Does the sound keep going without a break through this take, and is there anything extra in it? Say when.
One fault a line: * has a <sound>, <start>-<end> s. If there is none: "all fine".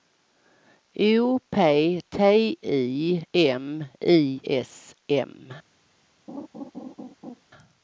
* has a laugh, 6.3-7.4 s